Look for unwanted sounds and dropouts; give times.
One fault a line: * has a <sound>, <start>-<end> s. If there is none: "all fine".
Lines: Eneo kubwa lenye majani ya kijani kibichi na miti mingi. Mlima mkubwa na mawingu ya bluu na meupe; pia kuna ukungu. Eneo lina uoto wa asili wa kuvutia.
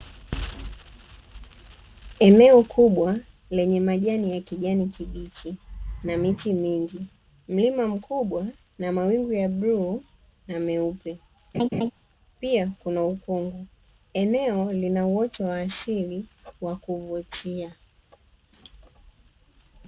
* has a laugh, 11.5-11.9 s